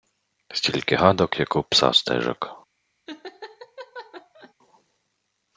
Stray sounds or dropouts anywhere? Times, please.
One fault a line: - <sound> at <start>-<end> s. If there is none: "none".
- laugh at 3.1-4.5 s